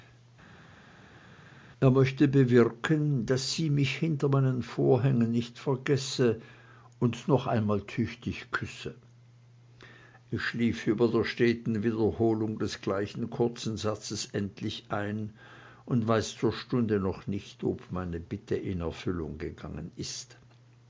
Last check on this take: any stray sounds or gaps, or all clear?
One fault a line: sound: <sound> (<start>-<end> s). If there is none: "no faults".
no faults